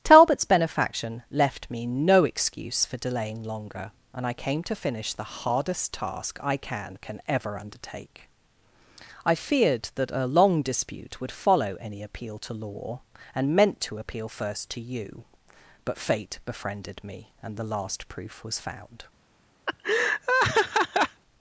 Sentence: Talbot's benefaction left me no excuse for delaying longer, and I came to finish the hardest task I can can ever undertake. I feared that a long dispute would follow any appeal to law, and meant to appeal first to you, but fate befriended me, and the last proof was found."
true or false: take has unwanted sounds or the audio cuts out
true